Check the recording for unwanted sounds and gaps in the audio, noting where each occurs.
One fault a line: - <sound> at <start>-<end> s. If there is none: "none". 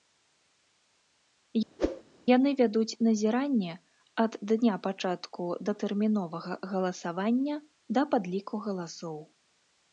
- whoosh at 1.8-2.0 s